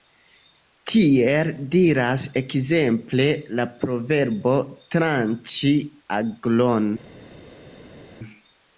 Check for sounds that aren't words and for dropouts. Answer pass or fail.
pass